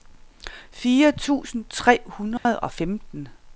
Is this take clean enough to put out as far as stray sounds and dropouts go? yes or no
no